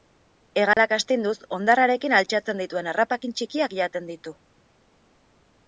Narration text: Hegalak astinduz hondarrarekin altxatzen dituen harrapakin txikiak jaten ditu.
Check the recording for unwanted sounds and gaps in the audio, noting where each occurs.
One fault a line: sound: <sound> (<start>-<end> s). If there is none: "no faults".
sound: dropout (0.7-0.8 s)